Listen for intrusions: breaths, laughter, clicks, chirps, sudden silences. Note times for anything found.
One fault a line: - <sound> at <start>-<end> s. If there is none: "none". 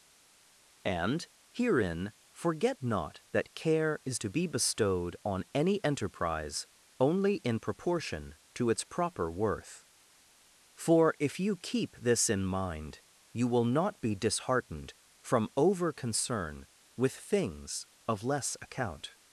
none